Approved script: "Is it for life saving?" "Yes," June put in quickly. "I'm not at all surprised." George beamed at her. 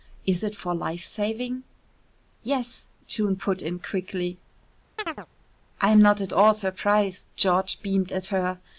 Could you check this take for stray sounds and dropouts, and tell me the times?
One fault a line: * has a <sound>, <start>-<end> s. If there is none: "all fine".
* has a chirp, 5.0-5.3 s